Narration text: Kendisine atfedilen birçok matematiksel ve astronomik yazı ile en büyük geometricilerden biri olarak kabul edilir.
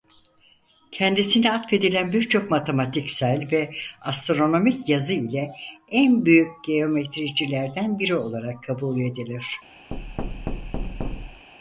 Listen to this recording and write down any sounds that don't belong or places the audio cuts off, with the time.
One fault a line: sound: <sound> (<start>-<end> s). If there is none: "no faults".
sound: thud (9.9-11.5 s)